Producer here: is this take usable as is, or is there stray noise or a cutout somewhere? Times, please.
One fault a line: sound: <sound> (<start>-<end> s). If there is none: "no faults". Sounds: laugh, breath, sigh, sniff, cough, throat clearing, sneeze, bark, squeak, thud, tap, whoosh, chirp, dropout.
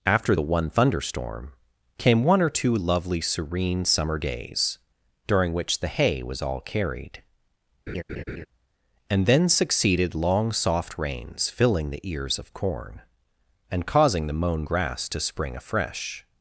sound: laugh (7.9-8.5 s)